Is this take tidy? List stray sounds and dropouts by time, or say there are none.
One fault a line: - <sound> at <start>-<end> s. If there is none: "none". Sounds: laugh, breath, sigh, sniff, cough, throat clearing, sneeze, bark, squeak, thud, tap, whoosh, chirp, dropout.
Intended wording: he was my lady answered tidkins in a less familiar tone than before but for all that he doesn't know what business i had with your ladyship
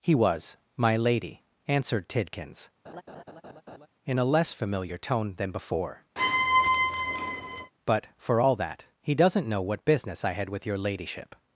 - laugh at 2.8-3.9 s
- squeak at 6.2-7.7 s